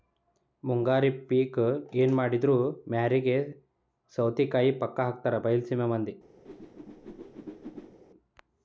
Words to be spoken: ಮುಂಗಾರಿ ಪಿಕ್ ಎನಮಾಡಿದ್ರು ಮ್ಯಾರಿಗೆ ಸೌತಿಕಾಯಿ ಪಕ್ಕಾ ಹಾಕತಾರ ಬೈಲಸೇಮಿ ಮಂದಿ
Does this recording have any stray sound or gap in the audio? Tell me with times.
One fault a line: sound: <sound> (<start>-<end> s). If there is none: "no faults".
sound: whoosh (6.5-8.0 s)